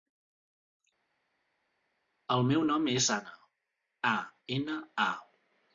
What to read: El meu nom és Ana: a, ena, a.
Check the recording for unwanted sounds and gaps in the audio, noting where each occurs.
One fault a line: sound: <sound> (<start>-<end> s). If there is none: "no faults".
no faults